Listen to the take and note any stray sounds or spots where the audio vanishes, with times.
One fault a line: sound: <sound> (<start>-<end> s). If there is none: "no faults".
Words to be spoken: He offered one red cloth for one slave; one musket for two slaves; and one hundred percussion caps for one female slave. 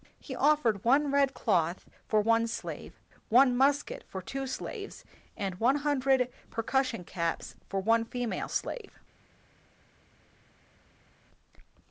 no faults